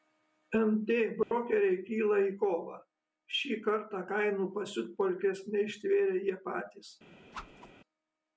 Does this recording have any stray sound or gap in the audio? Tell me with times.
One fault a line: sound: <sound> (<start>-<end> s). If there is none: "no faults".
sound: dropout (1.2-1.3 s)
sound: whoosh (7.3-7.7 s)